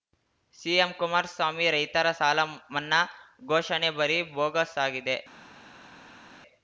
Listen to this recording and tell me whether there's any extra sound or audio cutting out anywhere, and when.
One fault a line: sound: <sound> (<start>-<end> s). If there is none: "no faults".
no faults